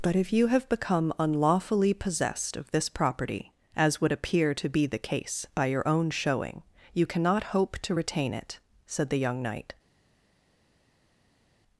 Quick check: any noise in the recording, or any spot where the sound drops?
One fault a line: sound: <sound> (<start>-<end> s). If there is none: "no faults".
no faults